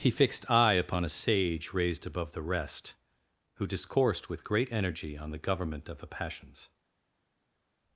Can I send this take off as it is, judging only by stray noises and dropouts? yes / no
yes